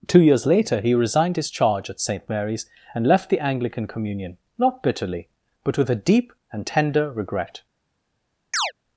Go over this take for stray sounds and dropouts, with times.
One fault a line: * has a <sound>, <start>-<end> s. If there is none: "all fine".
* has a chirp, 8.5-8.7 s